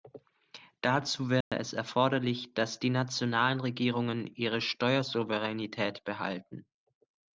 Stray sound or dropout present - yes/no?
yes